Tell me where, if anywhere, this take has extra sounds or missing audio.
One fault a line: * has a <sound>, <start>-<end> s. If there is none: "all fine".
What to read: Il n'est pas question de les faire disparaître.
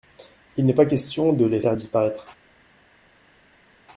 all fine